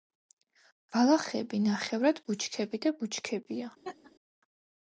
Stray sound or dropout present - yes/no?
yes